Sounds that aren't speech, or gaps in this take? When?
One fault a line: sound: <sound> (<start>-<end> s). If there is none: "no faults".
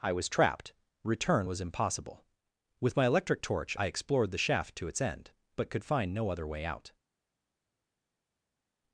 no faults